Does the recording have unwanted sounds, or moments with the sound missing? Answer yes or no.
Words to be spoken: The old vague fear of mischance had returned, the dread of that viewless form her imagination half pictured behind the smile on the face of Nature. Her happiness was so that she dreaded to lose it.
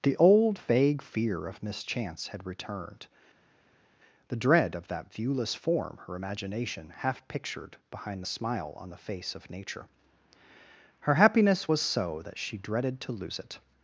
no